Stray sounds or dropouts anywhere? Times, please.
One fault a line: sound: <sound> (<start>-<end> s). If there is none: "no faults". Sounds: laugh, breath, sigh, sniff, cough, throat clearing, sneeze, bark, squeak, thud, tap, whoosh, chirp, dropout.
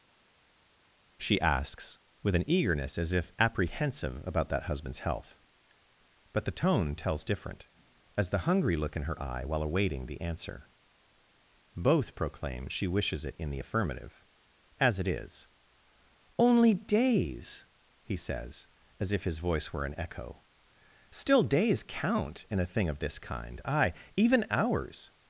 no faults